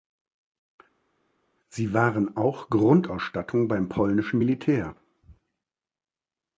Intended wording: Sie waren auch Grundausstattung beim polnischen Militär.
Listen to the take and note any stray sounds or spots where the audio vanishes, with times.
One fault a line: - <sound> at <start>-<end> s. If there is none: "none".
none